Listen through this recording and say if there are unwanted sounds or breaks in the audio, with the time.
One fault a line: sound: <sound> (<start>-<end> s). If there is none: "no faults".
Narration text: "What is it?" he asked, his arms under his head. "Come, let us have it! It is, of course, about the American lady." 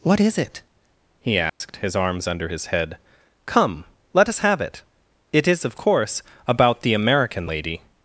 sound: dropout (1.5-1.6 s)